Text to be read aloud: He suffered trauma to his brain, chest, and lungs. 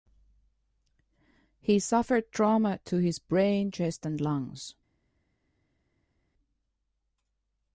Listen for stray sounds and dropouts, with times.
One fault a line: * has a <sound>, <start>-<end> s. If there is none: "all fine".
all fine